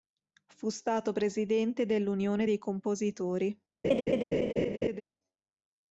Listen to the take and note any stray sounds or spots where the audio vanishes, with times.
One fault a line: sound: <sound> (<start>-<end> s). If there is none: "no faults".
sound: laugh (3.8-5.0 s)